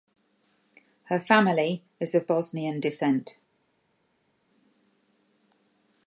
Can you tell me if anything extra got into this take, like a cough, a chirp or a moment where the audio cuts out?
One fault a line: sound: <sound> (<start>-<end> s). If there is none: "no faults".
no faults